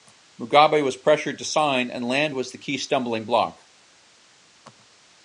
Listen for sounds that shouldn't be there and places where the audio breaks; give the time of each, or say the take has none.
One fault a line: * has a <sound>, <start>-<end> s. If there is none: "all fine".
all fine